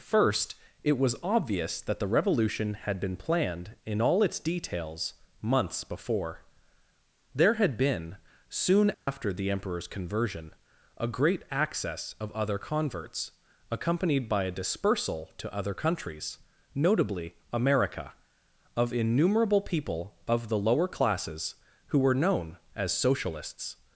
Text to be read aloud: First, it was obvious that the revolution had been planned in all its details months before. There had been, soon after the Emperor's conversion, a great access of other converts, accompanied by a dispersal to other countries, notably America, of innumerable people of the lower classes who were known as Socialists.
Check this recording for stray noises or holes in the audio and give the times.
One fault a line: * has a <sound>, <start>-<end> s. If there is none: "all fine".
* has a dropout, 8.9-9.1 s